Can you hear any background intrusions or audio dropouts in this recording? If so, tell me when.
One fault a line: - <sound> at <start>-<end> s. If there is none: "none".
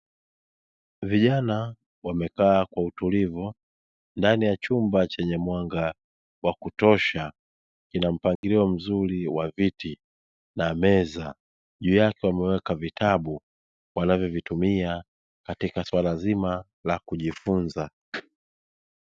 - dropout at 8.4-8.4 s